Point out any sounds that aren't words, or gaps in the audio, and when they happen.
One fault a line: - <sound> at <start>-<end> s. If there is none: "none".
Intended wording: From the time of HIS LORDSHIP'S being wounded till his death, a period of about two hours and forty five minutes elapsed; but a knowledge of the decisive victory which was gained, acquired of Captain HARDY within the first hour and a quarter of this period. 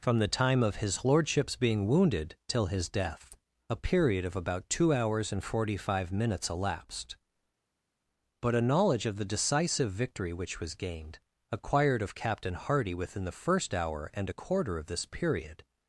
none